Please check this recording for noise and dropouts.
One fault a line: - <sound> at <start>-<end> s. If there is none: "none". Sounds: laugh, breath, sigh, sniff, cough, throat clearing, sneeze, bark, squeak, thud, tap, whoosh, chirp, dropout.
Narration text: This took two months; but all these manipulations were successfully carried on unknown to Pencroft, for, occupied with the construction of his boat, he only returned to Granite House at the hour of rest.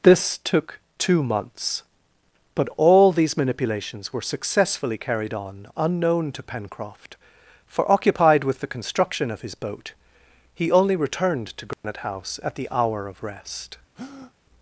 - dropout at 11.7-11.8 s
- breath at 13.9-14.3 s